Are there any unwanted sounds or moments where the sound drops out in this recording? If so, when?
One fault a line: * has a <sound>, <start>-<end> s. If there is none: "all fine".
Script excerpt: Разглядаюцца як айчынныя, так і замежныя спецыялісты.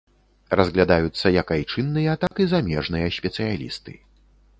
* has a dropout, 2.3-2.3 s